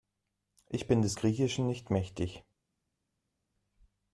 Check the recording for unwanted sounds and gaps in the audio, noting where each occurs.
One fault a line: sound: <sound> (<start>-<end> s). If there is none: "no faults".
no faults